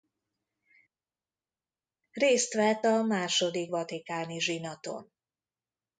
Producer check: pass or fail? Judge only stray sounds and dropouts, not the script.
pass